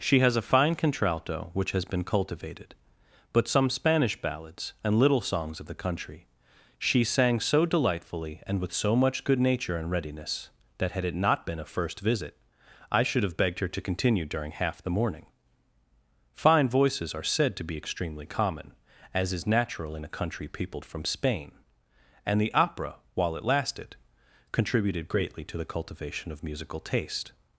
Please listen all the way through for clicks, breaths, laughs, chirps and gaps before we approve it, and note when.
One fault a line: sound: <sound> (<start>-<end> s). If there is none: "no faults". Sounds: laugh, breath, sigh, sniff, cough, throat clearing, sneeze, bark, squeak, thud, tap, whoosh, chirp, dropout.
no faults